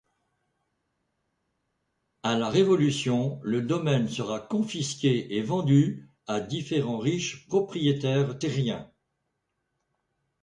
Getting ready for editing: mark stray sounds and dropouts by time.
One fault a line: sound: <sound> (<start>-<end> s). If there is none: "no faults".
no faults